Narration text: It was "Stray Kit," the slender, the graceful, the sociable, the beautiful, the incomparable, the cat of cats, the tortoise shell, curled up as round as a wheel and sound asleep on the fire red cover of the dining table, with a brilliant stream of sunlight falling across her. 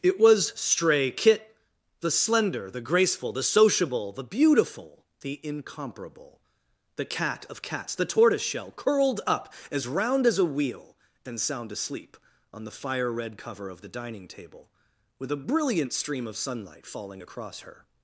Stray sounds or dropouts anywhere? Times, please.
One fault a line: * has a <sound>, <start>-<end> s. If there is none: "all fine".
all fine